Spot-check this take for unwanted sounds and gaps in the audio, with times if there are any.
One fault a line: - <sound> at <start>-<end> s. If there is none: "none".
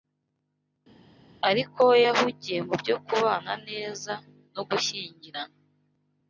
none